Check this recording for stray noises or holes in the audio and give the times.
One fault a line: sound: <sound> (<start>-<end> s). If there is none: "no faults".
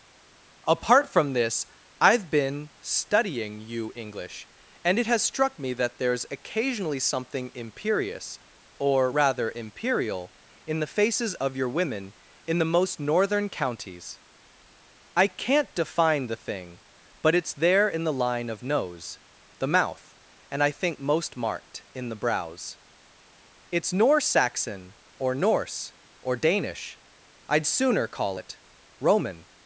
no faults